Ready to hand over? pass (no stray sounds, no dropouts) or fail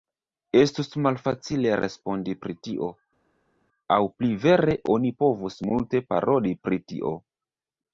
pass